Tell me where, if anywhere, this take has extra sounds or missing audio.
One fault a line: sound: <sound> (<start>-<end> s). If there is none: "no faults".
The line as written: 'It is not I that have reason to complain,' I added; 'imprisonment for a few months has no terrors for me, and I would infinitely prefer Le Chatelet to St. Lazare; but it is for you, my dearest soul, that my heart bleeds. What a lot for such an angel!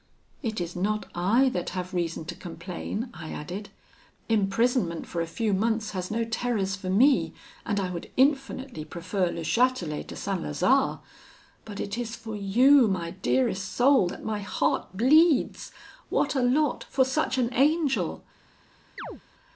sound: chirp (19.0-19.2 s)